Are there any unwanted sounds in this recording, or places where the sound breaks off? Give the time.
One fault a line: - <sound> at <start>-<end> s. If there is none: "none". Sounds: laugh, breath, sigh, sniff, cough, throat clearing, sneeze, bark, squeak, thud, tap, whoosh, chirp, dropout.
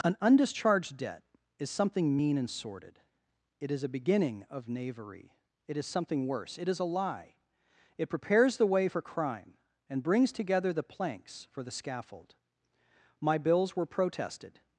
none